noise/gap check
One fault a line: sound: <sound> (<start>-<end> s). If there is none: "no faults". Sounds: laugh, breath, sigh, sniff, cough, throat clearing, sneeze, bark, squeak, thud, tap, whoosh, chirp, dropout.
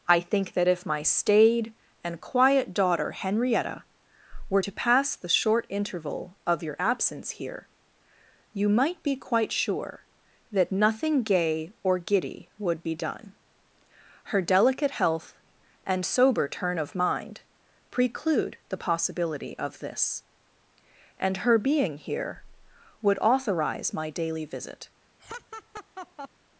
sound: laugh (25.2-26.3 s)